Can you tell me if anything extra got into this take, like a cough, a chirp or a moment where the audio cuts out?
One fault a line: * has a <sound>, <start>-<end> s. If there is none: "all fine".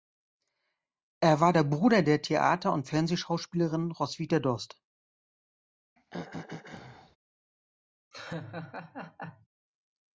* has a throat clearing, 6.0-7.2 s
* has a laugh, 8.1-9.5 s